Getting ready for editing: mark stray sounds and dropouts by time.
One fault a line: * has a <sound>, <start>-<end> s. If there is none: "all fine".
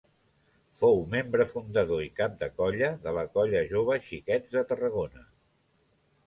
all fine